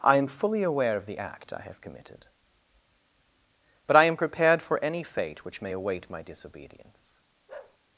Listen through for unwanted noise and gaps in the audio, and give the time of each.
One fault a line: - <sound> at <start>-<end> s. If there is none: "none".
- bark at 7.5-7.8 s